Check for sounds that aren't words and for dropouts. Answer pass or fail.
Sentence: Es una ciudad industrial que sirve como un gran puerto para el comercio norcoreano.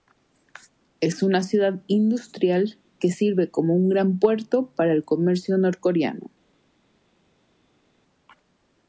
pass